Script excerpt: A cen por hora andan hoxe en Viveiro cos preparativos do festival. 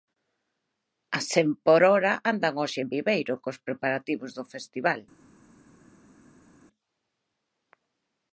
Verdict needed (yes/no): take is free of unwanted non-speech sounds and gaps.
yes